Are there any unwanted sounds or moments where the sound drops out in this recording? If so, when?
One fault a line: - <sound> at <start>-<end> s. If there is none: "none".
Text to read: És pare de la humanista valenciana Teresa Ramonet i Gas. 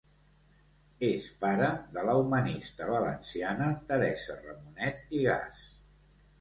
none